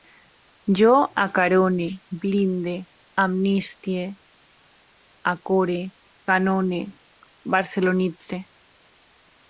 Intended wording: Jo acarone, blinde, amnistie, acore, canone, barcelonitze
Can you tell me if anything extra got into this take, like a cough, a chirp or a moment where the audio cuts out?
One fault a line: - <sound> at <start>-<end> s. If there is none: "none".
none